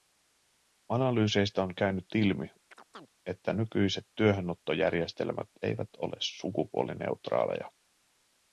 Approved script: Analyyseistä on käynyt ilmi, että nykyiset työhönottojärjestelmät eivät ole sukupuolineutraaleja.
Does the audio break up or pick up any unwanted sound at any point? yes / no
yes